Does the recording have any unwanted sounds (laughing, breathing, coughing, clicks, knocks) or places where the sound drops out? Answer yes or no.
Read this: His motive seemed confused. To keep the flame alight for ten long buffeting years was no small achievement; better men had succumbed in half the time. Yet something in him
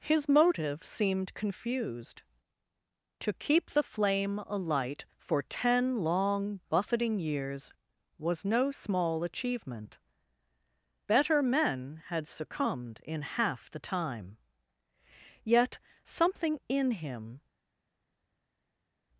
no